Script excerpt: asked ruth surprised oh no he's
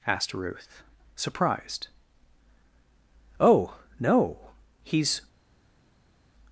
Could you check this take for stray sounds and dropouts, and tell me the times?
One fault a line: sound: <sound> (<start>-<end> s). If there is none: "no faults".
no faults